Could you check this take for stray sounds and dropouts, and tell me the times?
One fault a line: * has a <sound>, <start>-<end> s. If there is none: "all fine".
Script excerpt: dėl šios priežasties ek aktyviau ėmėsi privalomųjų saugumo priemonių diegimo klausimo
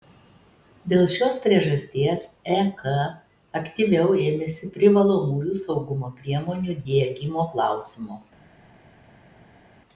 all fine